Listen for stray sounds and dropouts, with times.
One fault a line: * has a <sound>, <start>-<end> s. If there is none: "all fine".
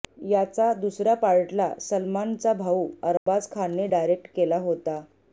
* has a dropout, 3.2-3.3 s